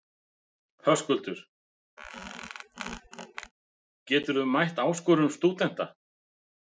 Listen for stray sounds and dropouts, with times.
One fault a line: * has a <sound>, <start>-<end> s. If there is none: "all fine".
* has a squeak, 2.0-3.5 s